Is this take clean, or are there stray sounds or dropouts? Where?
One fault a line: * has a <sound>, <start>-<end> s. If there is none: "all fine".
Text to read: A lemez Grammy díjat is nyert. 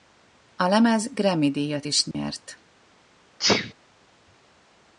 * has a dropout, 2.1-2.1 s
* has a sneeze, 3.4-3.7 s